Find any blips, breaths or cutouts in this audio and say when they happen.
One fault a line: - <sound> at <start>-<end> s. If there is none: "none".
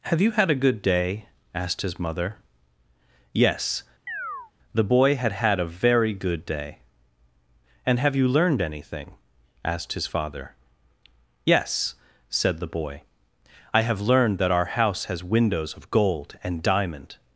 - chirp at 4.1-4.5 s